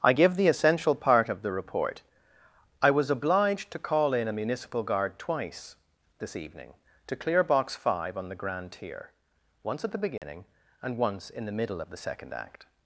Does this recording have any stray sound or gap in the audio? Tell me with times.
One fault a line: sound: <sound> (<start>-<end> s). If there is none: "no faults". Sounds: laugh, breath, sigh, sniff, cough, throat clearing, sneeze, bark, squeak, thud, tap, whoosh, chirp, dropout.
sound: dropout (10.2-10.2 s)